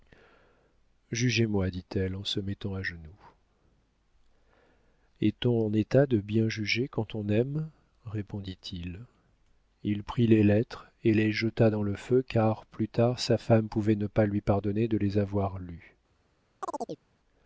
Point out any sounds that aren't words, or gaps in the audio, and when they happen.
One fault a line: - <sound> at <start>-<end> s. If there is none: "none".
- chirp at 16.6-17.0 s